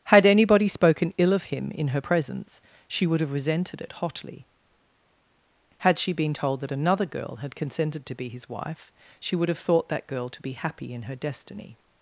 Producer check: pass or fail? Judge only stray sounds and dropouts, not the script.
pass